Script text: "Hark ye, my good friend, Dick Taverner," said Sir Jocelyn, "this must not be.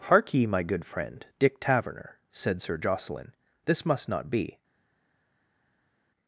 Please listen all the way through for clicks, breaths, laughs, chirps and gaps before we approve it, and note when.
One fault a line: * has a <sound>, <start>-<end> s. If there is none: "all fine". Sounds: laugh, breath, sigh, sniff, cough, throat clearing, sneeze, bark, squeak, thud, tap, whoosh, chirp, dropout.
all fine